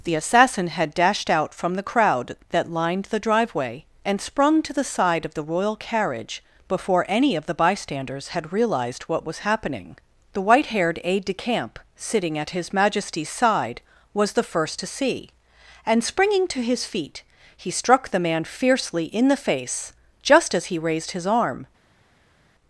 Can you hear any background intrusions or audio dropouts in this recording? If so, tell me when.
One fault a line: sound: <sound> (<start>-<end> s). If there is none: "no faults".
no faults